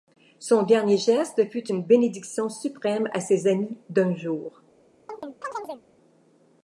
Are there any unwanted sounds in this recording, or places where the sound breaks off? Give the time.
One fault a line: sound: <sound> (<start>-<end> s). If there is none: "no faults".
sound: chirp (5.1-5.8 s)